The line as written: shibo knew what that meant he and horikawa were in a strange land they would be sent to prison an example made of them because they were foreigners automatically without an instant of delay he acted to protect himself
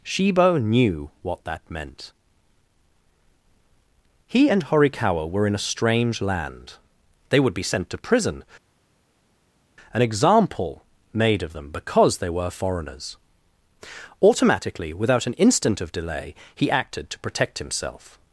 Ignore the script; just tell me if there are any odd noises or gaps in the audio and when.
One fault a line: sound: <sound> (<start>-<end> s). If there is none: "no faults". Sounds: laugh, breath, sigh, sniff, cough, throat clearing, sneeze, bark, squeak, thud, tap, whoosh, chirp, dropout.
no faults